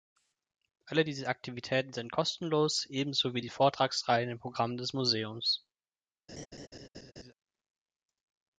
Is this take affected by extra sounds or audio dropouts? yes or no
yes